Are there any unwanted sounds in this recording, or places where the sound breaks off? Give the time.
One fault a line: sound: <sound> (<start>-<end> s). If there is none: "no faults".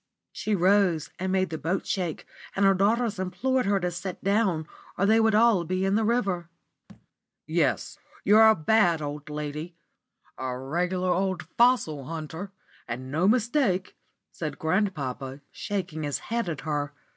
sound: thud (6.9-7.1 s)